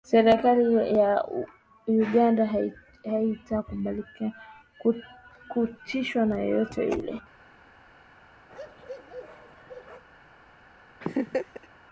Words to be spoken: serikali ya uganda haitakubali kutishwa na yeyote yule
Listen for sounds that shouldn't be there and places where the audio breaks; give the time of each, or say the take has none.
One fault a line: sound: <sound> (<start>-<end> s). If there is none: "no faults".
sound: bark (8.5-10.0 s)
sound: laugh (11.0-11.7 s)